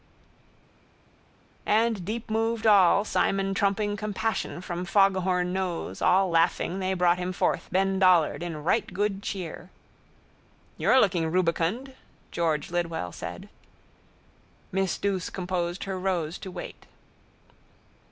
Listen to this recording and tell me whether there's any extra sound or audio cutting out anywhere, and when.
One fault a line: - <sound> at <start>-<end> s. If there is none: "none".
none